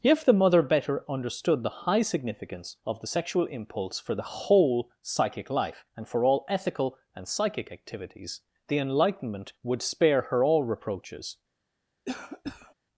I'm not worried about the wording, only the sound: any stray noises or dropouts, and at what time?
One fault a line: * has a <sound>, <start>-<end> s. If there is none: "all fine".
* has a cough, 12.1-12.7 s